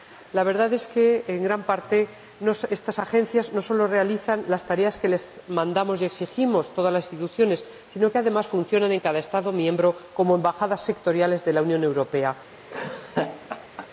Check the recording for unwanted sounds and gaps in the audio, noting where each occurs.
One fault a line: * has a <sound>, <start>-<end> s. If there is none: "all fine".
* has a laugh, 12.7-13.9 s